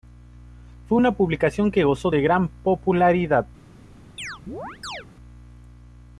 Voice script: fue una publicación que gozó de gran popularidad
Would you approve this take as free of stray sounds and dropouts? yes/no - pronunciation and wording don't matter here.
no